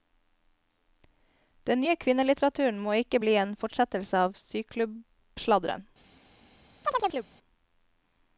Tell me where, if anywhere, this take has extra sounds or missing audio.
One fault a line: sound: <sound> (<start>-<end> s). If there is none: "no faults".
sound: chirp (6.8-7.3 s)